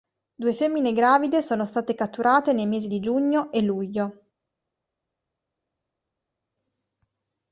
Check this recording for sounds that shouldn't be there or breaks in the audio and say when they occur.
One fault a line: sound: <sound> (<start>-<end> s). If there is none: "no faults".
no faults